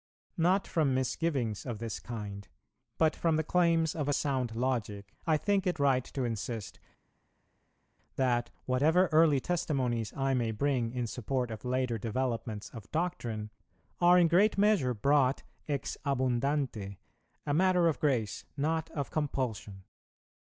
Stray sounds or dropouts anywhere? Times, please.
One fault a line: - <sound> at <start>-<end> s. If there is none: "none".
none